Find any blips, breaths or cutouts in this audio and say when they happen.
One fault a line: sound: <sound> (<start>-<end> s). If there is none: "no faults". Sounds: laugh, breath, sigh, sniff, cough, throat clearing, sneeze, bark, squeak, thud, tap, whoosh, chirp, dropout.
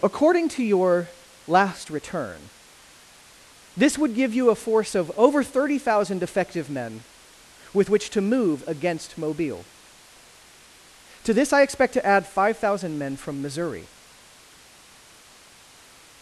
no faults